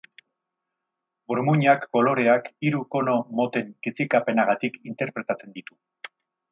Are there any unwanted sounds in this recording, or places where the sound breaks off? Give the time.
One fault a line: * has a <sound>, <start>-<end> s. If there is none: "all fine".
all fine